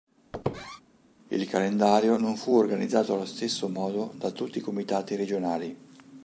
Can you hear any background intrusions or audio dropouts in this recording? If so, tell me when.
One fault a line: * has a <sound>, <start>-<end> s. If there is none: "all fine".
* has a squeak, 0.3-0.8 s